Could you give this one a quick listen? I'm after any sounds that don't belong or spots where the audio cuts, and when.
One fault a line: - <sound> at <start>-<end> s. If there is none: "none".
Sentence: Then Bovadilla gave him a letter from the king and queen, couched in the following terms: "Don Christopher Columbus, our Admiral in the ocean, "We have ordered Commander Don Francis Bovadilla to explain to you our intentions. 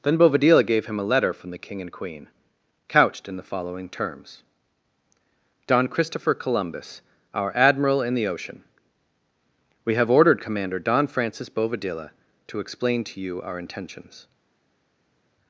none